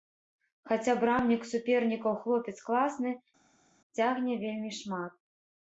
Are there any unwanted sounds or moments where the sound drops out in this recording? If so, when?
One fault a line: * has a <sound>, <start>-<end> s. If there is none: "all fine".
all fine